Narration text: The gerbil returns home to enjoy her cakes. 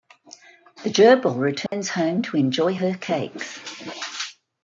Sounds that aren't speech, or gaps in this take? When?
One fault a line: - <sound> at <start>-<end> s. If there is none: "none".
- dropout at 1.7-1.7 s